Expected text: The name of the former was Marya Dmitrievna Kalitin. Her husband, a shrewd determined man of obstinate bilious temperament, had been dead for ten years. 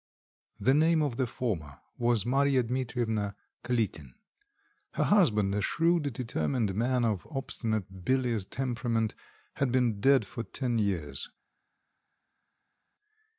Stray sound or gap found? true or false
false